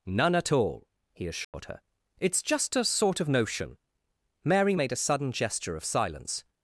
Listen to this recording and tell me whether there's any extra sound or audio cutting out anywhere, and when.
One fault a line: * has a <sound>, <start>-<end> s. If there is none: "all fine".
* has a dropout, 1.4-1.5 s